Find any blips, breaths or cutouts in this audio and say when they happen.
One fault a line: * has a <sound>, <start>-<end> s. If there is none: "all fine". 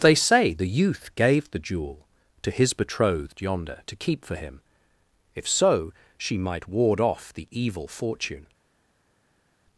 all fine